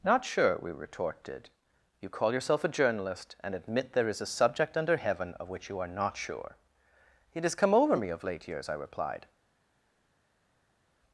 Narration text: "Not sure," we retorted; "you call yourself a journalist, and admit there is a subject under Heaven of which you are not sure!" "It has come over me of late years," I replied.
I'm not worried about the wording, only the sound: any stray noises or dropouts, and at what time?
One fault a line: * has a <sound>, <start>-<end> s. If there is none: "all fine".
all fine